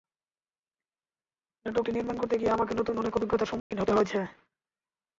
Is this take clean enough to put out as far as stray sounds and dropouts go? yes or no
no